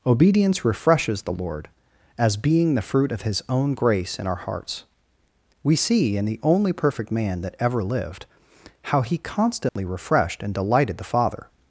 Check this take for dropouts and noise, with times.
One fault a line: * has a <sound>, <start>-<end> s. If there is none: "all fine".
* has a dropout, 9.7-9.8 s